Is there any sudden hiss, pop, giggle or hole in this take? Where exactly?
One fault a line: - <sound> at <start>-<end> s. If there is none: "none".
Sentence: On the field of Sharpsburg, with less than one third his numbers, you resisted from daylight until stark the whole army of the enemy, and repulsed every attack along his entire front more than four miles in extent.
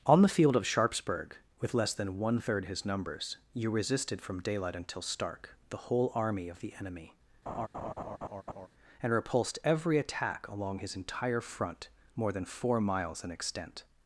- laugh at 7.5-8.7 s